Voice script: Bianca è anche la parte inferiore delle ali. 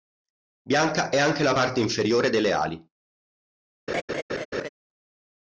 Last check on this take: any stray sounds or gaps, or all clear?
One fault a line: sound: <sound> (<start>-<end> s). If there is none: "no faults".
sound: laugh (3.9-4.7 s)